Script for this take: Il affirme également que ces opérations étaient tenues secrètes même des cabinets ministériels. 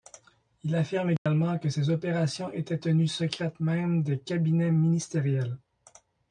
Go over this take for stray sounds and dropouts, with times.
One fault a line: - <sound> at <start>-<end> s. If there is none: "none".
- dropout at 1.2-1.3 s